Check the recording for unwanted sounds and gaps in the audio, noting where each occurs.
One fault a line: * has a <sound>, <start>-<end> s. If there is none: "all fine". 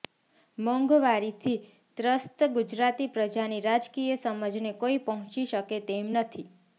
all fine